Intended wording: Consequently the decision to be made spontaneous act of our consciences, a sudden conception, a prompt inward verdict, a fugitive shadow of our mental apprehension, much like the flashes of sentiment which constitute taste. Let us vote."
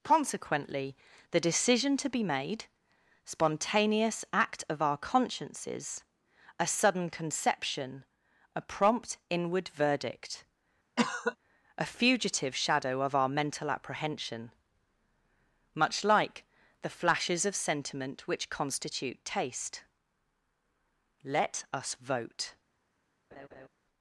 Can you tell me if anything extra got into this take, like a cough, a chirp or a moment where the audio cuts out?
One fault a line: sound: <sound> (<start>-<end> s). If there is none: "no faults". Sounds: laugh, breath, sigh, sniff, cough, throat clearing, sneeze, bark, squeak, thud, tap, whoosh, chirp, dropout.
sound: cough (11.0-11.4 s)
sound: laugh (23.3-23.7 s)